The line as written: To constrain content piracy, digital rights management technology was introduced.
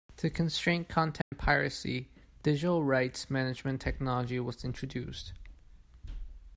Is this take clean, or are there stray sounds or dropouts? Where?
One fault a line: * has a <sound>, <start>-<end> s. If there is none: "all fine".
* has a dropout, 1.2-1.3 s